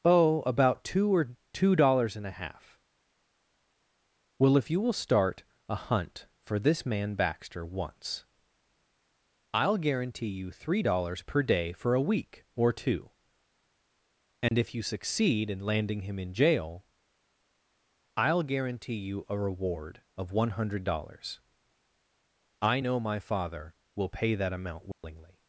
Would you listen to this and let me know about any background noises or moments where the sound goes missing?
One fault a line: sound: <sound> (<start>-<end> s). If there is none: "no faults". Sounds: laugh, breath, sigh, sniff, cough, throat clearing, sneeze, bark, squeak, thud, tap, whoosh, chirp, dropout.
sound: dropout (14.5-14.5 s)
sound: dropout (24.9-25.0 s)